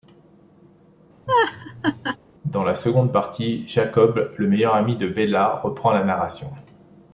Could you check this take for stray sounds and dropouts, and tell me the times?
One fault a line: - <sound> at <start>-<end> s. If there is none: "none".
- laugh at 1.3-2.2 s